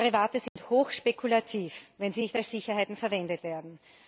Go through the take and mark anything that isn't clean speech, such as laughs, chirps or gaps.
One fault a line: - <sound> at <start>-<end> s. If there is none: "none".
- dropout at 0.5-0.6 s